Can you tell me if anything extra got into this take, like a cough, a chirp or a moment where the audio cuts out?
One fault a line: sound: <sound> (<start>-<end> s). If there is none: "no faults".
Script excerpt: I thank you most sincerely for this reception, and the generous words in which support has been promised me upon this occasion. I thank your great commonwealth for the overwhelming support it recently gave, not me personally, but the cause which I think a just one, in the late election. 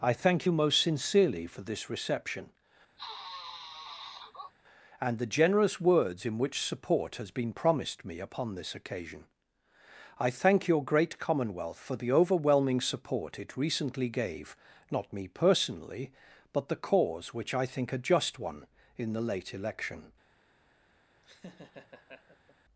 sound: sniff (3.0-4.5 s)
sound: laugh (21.2-22.6 s)